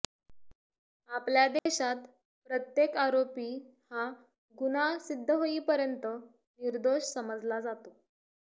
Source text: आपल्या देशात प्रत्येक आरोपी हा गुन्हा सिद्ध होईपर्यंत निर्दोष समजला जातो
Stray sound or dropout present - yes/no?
yes